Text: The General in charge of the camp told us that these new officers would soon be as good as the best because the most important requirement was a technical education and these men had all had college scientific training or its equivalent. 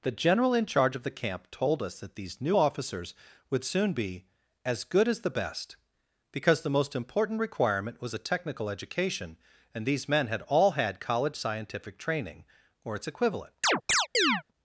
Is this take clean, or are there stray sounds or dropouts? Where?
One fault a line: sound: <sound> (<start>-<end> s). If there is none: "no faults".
sound: chirp (13.6-14.4 s)